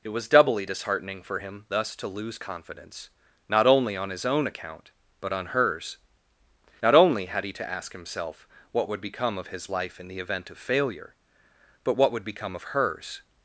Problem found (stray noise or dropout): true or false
false